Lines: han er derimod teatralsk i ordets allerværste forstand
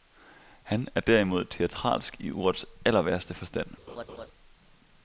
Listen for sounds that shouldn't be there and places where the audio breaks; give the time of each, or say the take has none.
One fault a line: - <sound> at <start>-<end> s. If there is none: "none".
- laugh at 3.9-4.3 s